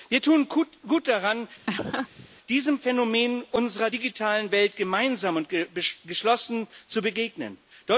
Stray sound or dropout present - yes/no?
yes